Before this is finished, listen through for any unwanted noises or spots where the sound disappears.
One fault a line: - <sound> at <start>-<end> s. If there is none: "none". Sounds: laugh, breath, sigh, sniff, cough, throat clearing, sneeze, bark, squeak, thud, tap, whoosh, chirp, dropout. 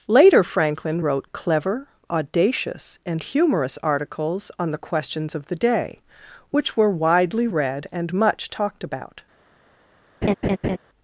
- laugh at 10.2-10.8 s